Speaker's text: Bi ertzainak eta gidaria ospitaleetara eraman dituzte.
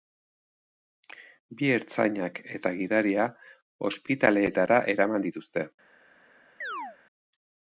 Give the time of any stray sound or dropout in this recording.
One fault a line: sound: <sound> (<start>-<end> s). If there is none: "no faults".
sound: chirp (6.6-7.0 s)